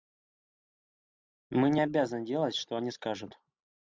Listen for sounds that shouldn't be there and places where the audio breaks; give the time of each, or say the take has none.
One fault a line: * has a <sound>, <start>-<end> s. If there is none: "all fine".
all fine